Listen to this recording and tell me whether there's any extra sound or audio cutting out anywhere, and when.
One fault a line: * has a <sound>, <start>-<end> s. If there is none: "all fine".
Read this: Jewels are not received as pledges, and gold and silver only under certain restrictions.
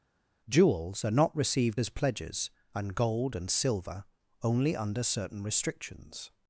all fine